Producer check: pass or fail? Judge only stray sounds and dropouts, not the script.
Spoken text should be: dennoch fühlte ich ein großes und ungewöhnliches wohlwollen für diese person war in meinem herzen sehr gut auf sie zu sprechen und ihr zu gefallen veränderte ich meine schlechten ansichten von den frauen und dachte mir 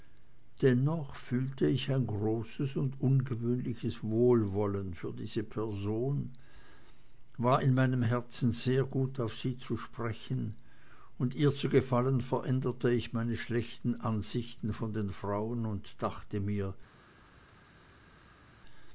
pass